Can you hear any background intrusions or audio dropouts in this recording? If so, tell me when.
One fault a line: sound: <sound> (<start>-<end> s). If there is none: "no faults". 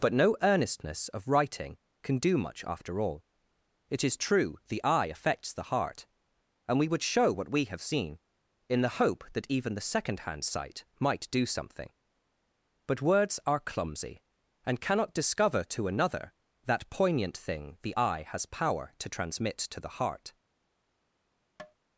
sound: tap (21.6-21.7 s)